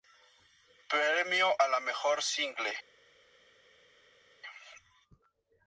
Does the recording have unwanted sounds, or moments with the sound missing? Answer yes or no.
no